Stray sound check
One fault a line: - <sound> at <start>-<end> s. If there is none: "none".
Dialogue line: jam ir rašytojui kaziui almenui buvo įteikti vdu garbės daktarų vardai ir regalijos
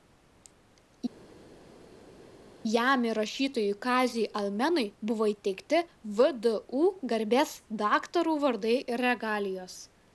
none